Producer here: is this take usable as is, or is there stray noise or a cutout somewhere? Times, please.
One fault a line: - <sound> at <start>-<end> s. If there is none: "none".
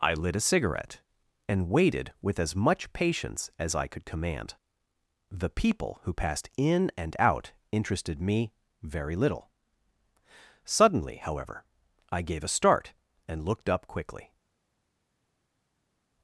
none